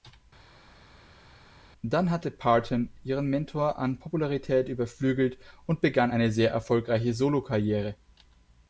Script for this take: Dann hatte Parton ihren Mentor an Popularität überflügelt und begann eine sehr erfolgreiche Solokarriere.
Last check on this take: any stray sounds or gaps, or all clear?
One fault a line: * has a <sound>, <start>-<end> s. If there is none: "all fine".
all fine